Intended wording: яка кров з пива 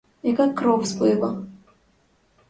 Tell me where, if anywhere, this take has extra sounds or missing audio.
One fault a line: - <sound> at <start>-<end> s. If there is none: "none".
none